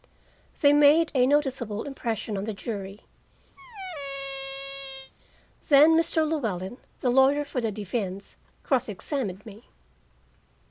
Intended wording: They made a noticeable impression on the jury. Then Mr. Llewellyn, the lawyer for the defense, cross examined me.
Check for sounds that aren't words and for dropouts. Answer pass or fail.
fail